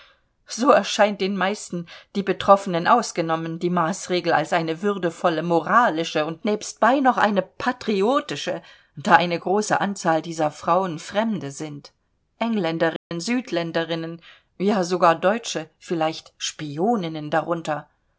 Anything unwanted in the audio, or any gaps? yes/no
yes